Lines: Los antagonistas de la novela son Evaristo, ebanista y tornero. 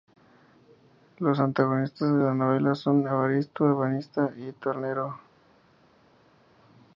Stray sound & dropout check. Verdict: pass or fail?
pass